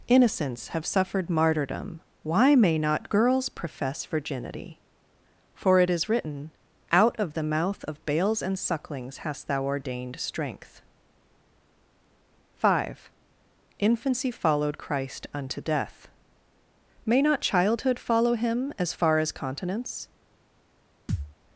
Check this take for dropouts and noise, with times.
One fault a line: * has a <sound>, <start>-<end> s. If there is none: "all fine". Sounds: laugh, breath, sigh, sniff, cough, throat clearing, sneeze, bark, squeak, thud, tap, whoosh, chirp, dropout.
* has a thud, 21.1-21.3 s